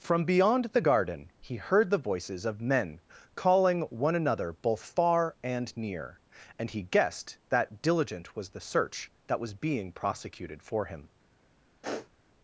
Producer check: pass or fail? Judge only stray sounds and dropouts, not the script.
fail